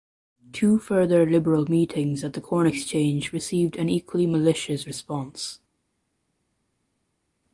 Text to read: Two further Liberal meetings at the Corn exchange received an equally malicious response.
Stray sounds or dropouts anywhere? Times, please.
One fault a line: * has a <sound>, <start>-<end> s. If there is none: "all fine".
all fine